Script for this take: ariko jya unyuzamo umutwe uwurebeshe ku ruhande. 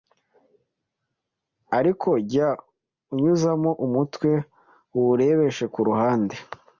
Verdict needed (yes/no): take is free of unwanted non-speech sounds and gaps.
yes